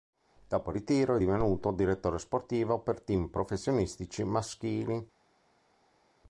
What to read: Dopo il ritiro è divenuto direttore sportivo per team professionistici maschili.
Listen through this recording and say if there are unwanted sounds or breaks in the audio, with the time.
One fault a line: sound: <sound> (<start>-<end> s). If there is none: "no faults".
no faults